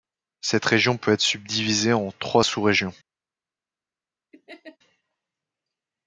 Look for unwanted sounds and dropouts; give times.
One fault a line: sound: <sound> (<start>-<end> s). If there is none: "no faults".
sound: laugh (4.3-4.8 s)